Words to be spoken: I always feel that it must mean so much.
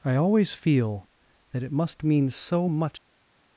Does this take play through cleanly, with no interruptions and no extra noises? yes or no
yes